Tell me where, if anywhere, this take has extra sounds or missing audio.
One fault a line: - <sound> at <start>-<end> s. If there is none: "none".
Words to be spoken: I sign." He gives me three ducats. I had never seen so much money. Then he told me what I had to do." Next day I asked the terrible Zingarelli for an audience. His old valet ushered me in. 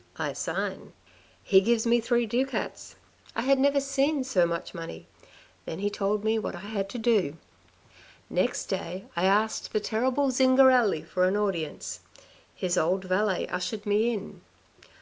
none